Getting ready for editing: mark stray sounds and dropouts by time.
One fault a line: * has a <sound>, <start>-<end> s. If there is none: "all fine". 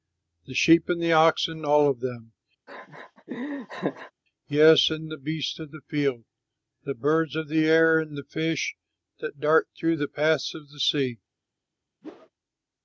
* has a laugh, 2.7-4.1 s
* has a whoosh, 12.0-12.3 s